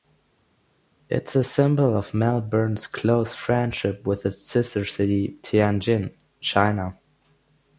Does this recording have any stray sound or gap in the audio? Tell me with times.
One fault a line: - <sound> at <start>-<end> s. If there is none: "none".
none